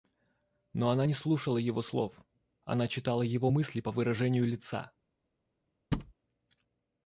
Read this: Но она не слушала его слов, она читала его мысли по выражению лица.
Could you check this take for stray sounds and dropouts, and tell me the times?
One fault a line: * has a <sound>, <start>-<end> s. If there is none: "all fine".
* has a thud, 5.9-6.1 s